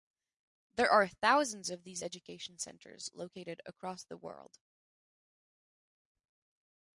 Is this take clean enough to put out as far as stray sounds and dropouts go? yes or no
yes